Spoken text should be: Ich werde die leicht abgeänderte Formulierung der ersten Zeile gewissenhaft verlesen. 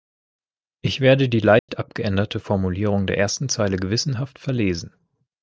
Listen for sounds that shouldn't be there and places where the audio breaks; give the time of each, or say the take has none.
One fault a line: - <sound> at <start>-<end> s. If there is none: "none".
- dropout at 1.6-1.7 s